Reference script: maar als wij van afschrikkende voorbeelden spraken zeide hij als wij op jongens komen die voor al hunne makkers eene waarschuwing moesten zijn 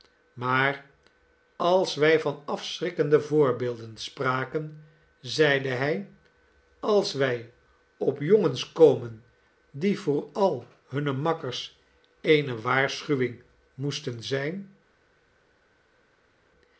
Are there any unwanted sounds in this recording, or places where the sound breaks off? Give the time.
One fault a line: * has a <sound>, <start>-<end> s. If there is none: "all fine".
all fine